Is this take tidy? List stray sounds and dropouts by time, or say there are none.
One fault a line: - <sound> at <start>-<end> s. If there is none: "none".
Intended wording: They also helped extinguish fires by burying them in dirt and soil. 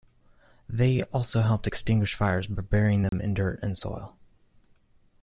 - dropout at 3.1-3.1 s